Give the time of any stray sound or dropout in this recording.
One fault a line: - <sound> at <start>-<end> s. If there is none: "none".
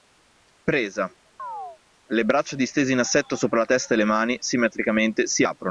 - chirp at 1.4-1.8 s